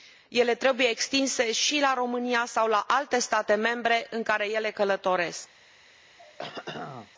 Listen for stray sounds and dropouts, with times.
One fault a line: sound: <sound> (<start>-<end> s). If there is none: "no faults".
sound: throat clearing (6.2-7.1 s)